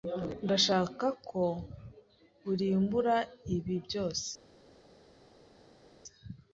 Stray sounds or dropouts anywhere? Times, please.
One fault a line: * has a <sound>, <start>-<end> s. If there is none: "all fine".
all fine